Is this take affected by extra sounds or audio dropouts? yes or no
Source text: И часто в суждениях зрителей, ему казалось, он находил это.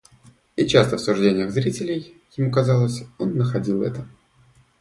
no